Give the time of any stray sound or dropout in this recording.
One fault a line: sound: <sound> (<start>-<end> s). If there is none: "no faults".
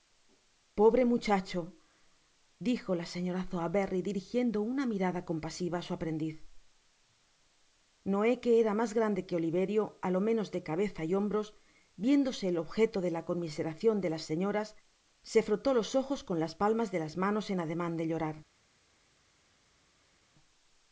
no faults